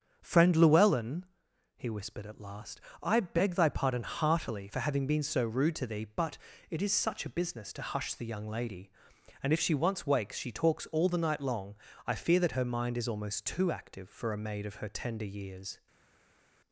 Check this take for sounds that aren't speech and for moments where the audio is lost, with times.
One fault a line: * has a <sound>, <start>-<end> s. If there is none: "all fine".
all fine